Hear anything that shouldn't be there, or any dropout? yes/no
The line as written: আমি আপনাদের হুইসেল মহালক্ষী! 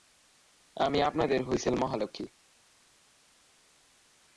no